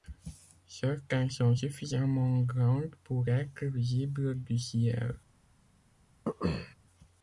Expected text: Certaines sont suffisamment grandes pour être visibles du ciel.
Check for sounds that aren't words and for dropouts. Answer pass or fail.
fail